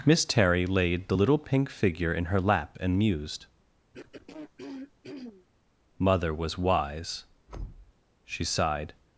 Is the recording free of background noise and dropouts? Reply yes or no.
no